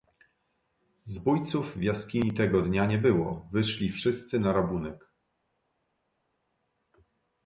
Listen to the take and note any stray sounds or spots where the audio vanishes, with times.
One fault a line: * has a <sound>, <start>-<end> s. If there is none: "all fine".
all fine